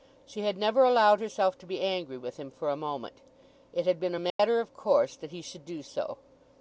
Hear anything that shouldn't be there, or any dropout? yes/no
yes